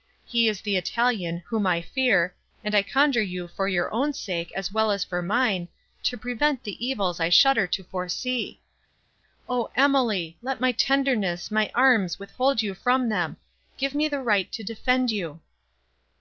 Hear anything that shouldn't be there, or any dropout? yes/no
no